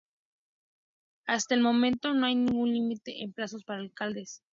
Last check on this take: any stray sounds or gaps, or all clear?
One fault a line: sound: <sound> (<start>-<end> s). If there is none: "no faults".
no faults